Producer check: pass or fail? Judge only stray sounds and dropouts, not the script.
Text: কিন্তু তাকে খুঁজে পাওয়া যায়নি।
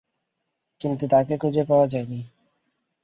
pass